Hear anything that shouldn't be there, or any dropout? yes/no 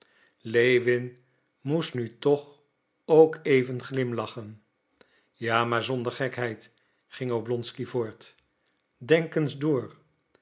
no